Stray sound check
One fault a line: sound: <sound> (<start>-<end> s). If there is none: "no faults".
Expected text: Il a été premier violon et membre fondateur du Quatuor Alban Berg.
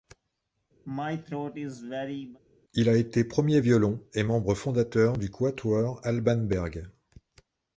sound: throat clearing (0.8-2.4 s)